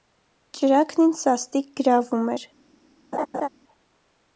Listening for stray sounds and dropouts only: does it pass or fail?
fail